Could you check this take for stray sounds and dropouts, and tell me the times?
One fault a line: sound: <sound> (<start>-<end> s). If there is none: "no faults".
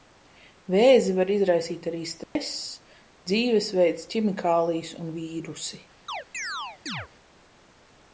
sound: dropout (2.2-2.4 s)
sound: chirp (6.1-7.1 s)